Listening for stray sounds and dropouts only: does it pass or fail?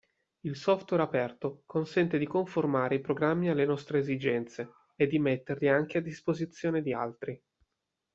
pass